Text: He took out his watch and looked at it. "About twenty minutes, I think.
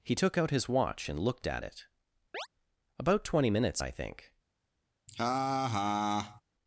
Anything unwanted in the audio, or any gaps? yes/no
yes